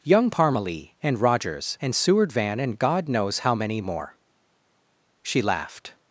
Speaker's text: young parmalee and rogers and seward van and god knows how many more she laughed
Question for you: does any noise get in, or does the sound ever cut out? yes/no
no